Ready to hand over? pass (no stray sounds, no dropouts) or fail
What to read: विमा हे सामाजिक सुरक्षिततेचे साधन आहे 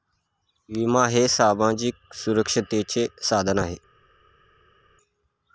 pass